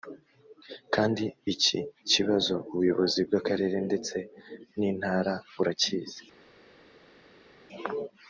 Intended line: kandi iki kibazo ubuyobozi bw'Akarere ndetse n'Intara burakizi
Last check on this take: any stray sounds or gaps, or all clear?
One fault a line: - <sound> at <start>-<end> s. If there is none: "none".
none